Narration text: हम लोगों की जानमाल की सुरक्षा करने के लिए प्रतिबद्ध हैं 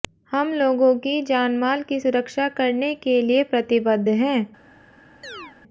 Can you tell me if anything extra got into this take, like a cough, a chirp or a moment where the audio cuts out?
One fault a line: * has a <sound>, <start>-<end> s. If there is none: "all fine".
* has a chirp, 5.2-5.6 s